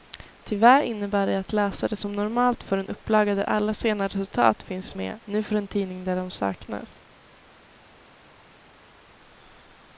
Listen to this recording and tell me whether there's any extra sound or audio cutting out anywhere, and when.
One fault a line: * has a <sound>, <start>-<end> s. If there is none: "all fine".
all fine